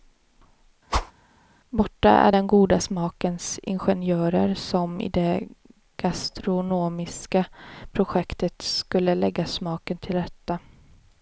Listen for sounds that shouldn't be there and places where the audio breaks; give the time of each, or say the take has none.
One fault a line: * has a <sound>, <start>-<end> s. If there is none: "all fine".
* has a whoosh, 0.9-1.1 s